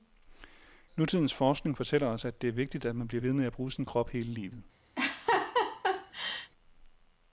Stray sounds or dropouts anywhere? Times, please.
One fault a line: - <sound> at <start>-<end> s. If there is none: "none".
- laugh at 5.0-6.5 s